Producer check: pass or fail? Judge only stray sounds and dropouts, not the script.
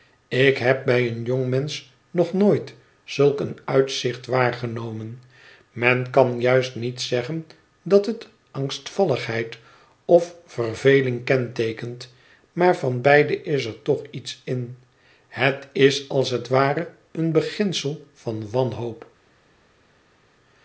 pass